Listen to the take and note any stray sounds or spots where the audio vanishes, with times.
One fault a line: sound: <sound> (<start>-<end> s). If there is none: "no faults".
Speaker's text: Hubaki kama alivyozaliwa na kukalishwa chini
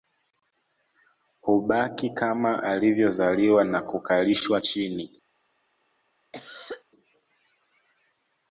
sound: cough (6.3-6.8 s)